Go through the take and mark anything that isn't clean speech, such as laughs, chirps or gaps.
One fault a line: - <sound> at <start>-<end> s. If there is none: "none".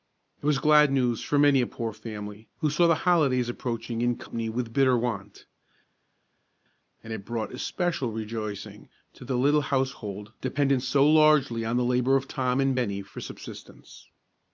none